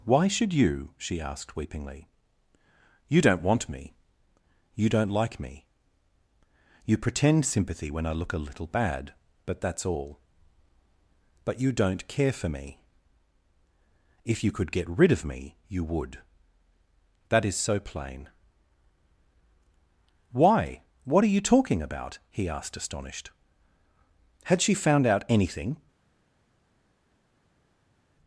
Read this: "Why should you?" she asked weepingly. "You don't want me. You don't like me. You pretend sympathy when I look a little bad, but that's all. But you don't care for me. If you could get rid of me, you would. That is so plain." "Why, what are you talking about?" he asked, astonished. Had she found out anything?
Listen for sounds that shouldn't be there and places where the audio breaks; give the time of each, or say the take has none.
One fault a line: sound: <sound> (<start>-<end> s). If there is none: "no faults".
no faults